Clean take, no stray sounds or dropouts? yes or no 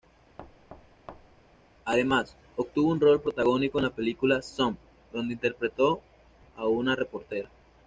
no